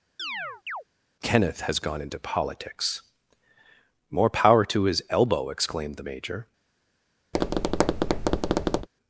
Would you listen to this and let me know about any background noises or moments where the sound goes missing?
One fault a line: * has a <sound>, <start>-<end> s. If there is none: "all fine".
* has a chirp, 0.2-0.8 s
* has a tap, 7.3-8.9 s